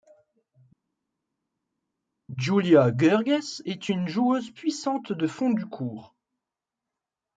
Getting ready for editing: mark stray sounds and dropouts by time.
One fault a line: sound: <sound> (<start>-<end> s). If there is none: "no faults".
no faults